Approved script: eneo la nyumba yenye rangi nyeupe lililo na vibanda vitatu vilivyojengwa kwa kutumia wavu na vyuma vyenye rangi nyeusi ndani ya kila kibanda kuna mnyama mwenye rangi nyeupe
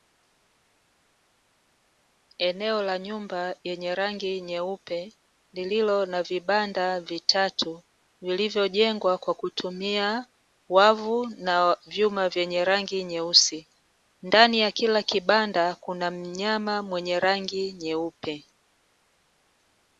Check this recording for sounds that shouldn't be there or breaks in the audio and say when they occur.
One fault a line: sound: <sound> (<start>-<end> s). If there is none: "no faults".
no faults